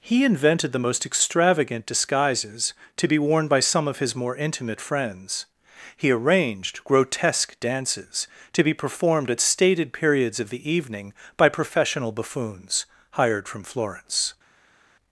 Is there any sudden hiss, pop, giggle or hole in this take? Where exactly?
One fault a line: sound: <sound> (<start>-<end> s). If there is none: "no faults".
no faults